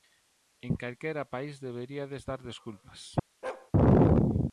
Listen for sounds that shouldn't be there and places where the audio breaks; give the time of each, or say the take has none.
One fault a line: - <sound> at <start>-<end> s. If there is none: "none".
- bark at 3.4-3.7 s